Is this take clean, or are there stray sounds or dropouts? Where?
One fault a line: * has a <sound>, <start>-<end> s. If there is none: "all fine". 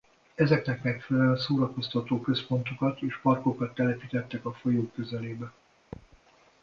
* has a thud, 5.9-6.2 s